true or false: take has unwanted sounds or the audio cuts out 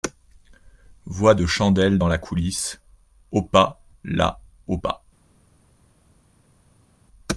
false